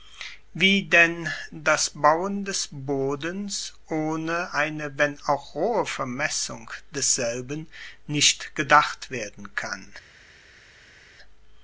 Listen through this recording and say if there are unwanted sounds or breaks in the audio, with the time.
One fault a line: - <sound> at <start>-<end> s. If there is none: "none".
none